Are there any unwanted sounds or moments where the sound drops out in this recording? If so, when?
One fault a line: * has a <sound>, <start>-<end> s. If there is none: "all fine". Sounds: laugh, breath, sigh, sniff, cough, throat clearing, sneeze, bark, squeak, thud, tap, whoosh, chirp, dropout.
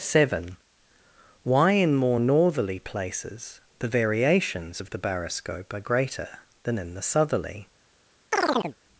* has a chirp, 8.3-8.8 s